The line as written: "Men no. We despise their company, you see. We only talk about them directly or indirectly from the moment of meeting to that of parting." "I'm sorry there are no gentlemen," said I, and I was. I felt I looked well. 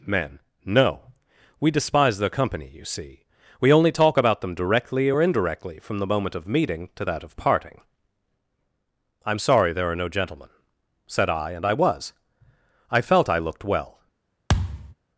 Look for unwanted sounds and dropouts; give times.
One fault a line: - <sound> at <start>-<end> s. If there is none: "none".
- thud at 14.5-14.9 s